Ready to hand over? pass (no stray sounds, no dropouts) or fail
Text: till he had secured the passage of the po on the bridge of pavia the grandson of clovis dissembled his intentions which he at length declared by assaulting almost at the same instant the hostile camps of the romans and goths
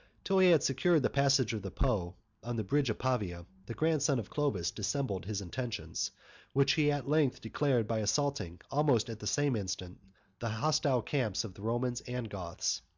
pass